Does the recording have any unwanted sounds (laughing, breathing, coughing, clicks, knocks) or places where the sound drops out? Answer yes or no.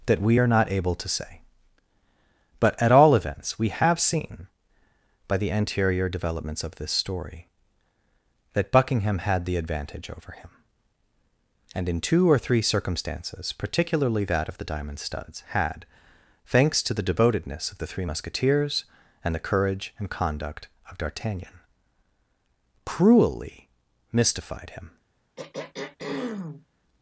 yes